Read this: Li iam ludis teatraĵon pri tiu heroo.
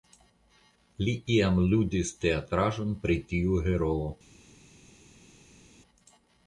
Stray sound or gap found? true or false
false